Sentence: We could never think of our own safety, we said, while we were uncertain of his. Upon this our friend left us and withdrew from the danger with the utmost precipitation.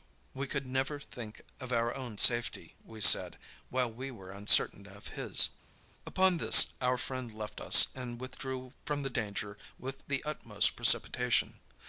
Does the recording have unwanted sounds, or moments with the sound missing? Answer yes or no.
no